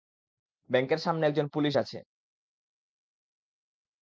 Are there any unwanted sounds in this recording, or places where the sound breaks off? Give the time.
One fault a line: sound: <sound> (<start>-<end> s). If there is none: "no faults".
no faults